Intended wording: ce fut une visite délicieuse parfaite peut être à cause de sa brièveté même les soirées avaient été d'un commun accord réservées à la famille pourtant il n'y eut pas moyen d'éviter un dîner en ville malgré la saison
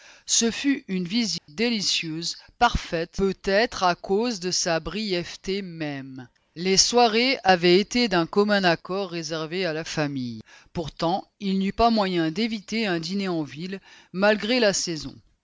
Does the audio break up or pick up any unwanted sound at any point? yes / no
yes